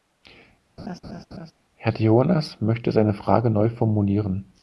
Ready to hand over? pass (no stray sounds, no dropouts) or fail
fail